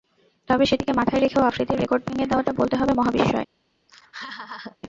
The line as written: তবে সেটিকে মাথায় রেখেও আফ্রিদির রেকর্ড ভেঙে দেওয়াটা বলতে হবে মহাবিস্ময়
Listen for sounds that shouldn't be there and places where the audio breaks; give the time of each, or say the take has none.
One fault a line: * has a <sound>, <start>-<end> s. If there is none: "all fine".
* has a laugh, 3.9-4.8 s